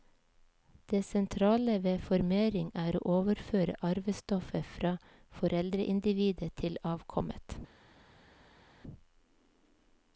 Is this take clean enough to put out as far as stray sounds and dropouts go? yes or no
yes